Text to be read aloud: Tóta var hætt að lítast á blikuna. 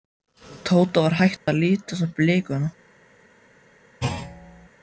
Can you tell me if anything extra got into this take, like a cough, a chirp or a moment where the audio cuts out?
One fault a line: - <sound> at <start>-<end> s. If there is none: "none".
- dropout at 1.4-1.5 s
- thud at 4.0-4.7 s